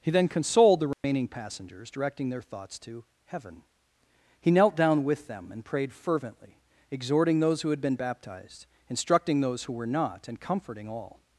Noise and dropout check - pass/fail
fail